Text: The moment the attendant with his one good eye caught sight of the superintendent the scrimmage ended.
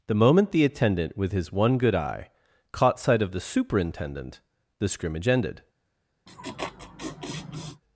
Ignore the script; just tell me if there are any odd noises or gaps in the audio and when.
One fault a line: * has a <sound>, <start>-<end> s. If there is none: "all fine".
* has a laugh, 6.3-7.8 s